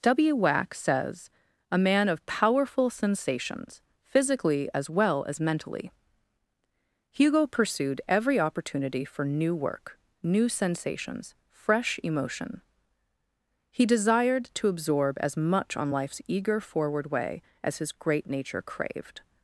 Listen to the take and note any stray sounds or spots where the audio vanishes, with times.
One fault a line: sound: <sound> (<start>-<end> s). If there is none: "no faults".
no faults